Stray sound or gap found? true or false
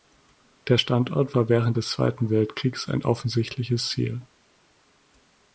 false